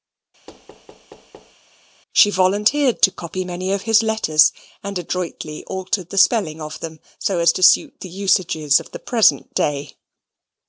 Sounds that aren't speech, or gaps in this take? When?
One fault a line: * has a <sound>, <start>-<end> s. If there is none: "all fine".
* has a thud, 0.5-1.6 s